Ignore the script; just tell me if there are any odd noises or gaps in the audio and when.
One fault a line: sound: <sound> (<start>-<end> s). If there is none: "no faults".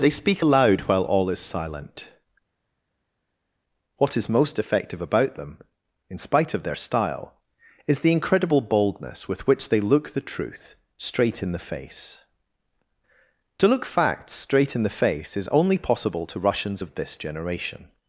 no faults